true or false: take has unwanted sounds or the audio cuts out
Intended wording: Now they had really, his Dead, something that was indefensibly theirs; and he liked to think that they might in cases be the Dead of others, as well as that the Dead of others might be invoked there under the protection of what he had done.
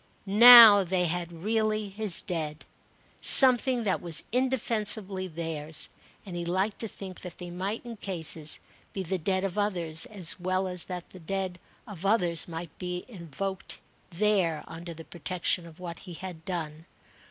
false